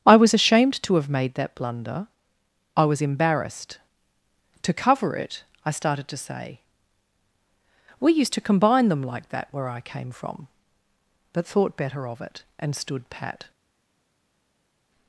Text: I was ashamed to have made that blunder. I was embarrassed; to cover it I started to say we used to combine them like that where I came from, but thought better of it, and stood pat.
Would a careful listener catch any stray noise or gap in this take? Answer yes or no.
no